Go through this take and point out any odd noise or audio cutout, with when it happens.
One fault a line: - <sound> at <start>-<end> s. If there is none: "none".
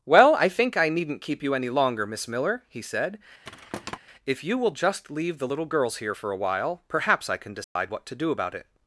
- thud at 3.4-4.0 s
- dropout at 7.6-7.8 s